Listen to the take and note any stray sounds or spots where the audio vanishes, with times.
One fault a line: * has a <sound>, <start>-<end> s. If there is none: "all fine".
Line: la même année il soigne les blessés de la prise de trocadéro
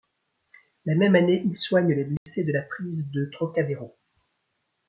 * has a dropout, 2.2-2.3 s